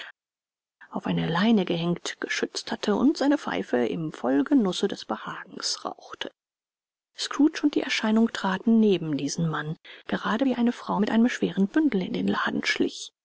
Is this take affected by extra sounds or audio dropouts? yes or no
no